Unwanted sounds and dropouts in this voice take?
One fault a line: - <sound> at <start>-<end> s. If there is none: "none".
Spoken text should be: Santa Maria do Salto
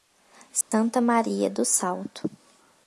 - dropout at 0.6-0.7 s